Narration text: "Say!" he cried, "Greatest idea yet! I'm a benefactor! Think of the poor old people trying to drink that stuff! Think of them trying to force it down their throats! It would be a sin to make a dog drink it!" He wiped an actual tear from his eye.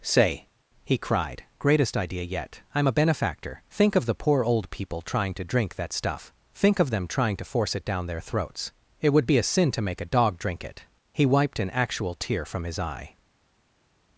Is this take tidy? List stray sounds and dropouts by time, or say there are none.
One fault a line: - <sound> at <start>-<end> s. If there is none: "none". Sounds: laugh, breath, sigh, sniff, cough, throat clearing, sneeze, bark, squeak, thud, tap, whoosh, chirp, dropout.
none